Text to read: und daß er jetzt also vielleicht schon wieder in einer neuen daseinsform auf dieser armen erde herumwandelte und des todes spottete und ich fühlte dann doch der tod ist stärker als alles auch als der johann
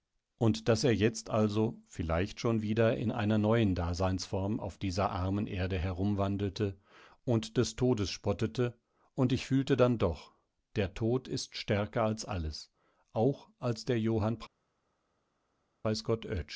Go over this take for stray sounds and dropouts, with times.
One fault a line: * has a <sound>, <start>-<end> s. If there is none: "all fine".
all fine